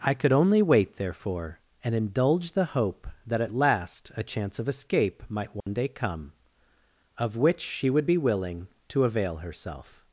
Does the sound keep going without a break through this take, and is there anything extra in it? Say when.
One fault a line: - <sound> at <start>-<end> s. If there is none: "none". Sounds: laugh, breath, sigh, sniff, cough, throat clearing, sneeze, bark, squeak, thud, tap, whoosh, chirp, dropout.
- dropout at 5.6-5.7 s